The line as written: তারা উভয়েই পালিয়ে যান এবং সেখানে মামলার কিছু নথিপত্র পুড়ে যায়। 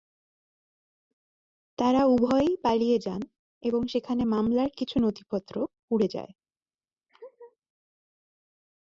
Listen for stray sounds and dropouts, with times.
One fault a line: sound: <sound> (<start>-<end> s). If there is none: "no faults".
sound: laugh (7.1-7.6 s)